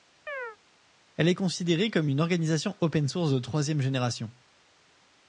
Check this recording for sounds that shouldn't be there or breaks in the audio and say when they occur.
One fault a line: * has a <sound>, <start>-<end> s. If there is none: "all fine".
* has a chirp, 0.3-0.6 s